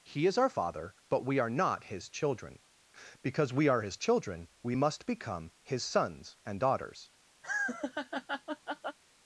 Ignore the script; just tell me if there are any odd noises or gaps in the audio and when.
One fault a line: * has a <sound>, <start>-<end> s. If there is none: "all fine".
* has a laugh, 7.4-9.0 s